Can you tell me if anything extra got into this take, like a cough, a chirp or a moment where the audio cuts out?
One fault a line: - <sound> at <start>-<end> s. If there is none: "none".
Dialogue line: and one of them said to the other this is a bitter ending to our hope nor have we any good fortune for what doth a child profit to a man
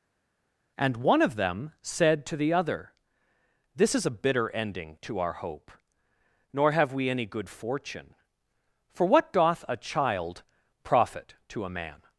none